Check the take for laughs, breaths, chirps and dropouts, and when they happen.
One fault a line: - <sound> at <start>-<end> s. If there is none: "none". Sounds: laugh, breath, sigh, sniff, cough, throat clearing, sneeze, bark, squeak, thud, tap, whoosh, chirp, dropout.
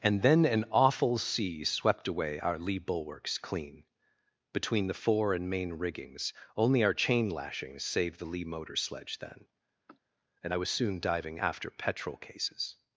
- sniff at 9.9-10.0 s